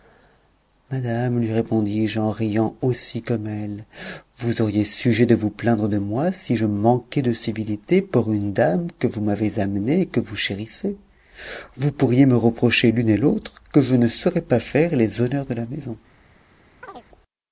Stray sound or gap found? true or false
true